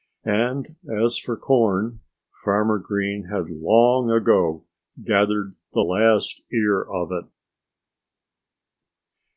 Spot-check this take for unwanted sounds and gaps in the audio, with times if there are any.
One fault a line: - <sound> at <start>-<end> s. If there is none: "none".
none